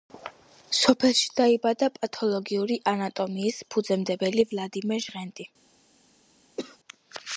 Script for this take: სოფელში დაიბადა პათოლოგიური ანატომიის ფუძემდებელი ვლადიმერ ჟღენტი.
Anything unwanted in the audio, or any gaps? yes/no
yes